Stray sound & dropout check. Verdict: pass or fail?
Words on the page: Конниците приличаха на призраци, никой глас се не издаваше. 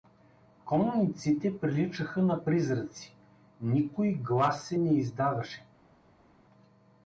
pass